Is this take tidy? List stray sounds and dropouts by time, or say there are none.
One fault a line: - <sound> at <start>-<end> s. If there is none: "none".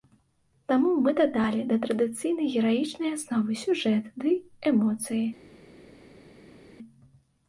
none